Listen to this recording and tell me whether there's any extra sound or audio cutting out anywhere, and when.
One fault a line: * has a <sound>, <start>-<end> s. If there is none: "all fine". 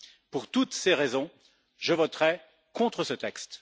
all fine